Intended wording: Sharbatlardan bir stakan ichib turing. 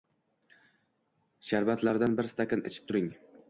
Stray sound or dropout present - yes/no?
no